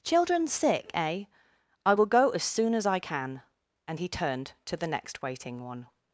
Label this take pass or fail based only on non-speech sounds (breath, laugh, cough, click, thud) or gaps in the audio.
pass